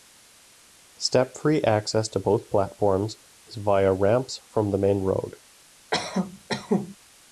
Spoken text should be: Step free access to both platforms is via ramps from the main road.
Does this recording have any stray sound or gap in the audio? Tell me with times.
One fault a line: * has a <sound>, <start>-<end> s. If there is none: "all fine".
* has a cough, 5.9-7.0 s